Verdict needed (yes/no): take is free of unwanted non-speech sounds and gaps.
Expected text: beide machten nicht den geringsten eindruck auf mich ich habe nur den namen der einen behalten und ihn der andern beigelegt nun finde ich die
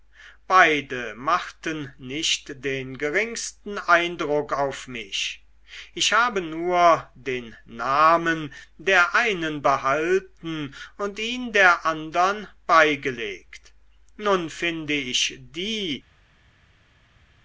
yes